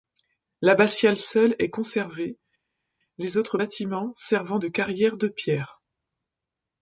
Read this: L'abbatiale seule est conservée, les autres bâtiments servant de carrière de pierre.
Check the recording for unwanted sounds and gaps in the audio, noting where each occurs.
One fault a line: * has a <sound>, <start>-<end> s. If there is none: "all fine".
all fine